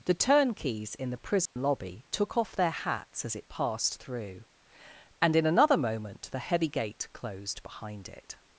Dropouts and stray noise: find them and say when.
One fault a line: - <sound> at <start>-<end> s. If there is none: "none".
- dropout at 1.5-1.6 s